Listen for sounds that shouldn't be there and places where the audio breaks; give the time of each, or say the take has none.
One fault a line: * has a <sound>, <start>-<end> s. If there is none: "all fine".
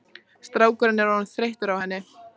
all fine